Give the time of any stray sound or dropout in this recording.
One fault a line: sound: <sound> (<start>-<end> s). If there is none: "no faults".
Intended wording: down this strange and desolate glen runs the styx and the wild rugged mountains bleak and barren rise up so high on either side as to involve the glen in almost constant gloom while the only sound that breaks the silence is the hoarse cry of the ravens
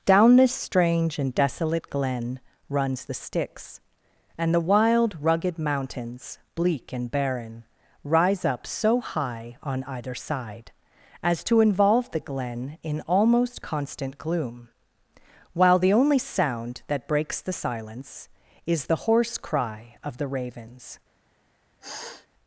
sound: sniff (21.8-22.3 s)